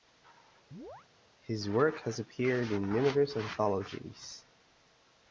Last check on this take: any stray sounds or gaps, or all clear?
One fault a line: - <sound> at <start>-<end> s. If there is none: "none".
- chirp at 0.7-1.1 s